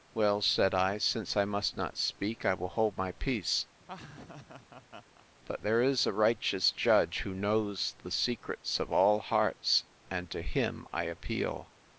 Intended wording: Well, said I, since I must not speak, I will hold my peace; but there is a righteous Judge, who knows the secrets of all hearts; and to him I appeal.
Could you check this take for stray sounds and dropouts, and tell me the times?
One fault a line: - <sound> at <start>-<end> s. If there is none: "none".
- laugh at 3.8-5.3 s